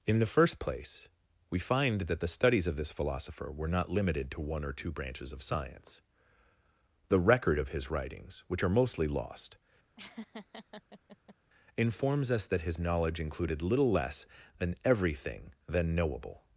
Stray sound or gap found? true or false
true